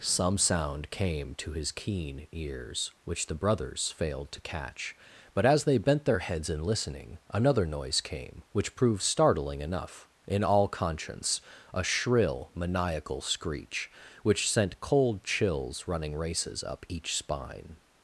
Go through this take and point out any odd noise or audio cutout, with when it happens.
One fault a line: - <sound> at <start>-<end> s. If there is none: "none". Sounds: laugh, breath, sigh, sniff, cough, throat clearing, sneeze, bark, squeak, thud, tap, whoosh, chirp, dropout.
none